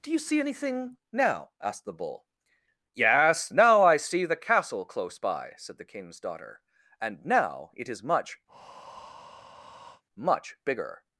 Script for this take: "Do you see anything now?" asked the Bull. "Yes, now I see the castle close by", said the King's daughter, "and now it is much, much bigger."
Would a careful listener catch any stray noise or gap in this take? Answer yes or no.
yes